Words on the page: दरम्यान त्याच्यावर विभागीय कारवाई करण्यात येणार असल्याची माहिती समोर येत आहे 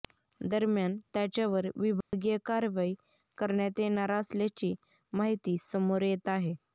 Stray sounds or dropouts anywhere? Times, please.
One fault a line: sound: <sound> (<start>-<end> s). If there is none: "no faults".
sound: dropout (2.0-2.1 s)